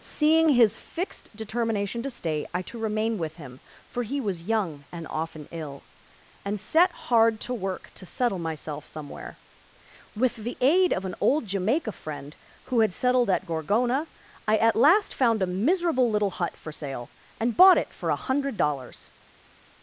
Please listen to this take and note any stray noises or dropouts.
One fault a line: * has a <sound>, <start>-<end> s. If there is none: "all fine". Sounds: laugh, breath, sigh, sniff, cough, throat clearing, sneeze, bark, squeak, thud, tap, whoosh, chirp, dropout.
all fine